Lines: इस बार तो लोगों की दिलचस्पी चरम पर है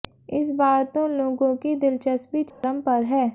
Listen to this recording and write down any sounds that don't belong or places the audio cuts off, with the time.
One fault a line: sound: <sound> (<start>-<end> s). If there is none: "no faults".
sound: dropout (2.5-2.6 s)